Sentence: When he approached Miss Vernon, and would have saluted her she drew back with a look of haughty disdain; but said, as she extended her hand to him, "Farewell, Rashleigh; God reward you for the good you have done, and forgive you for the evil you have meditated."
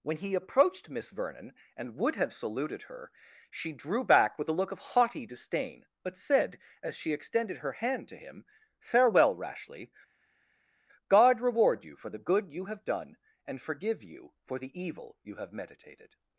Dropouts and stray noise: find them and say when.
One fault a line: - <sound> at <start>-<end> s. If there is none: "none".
none